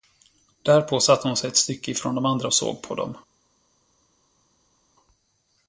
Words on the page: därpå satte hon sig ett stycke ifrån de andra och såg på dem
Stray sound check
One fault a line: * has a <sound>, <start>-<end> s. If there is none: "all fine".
all fine